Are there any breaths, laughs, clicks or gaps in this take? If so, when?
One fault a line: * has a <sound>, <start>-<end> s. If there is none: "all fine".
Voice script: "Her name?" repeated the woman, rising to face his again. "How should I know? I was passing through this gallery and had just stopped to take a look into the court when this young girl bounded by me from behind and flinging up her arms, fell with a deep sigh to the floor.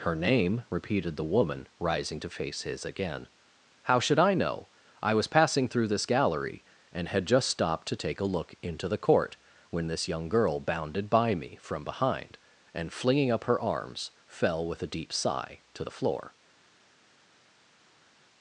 all fine